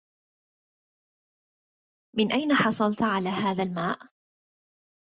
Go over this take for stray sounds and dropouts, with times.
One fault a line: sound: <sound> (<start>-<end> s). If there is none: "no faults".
no faults